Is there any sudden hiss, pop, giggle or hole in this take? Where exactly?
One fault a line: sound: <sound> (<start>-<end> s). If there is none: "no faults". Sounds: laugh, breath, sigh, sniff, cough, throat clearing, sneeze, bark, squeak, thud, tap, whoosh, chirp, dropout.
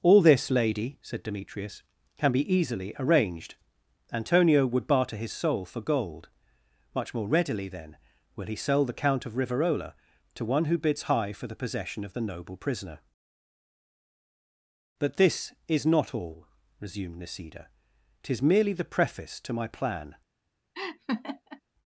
sound: laugh (20.7-21.6 s)